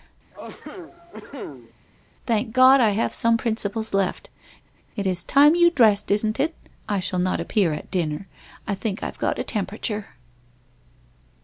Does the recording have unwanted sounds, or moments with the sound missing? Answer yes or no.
yes